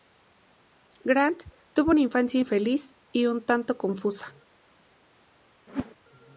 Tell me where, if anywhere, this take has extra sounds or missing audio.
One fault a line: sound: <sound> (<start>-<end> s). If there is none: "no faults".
sound: whoosh (5.7-5.9 s)